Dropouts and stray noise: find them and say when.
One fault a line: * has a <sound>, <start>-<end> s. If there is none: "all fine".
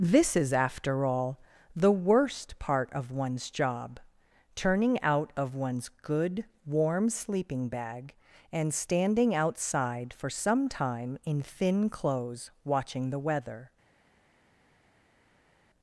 all fine